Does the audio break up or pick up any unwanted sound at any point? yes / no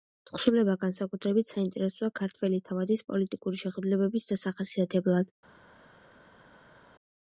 no